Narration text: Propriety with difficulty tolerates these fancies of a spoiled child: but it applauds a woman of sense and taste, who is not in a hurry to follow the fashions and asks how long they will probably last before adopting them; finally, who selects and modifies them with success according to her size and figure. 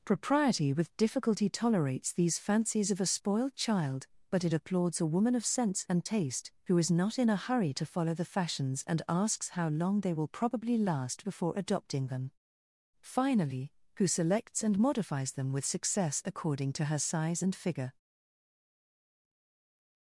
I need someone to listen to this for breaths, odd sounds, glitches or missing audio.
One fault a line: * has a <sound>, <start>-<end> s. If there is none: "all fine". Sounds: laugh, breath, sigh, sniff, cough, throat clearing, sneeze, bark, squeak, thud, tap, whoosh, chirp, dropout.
all fine